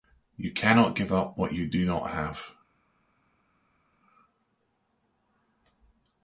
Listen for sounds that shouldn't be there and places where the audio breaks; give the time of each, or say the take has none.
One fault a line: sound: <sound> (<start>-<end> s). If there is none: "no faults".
no faults